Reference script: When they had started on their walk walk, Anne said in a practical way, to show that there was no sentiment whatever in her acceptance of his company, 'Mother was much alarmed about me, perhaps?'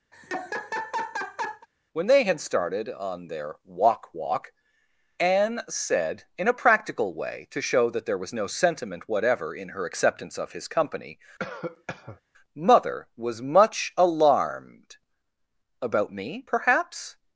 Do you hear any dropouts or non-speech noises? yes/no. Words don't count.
yes